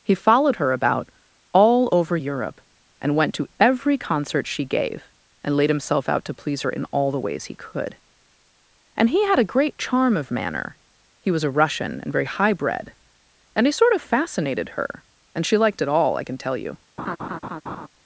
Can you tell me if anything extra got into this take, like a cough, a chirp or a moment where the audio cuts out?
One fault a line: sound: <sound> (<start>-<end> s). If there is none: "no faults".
sound: laugh (17.0-17.9 s)